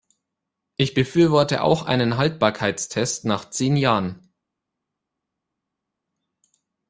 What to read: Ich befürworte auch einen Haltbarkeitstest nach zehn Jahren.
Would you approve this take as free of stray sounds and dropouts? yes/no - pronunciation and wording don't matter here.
yes